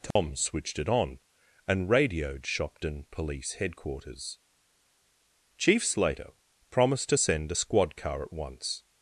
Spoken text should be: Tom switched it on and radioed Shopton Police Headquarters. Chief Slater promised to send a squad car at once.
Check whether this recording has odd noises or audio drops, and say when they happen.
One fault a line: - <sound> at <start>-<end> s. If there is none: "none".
- dropout at 0.1-0.2 s